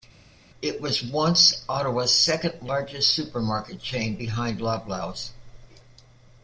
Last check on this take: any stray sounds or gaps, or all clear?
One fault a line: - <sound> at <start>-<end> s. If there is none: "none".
none